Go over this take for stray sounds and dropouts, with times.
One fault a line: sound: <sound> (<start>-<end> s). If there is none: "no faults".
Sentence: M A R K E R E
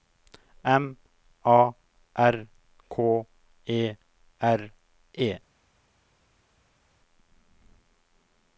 no faults